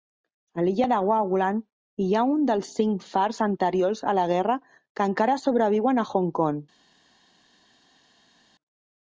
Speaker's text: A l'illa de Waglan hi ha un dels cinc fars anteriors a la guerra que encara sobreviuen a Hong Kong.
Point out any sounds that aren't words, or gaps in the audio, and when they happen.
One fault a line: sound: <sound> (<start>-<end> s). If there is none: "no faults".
no faults